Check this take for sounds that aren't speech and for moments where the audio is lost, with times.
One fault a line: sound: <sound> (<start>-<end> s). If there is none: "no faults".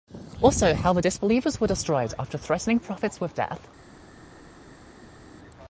no faults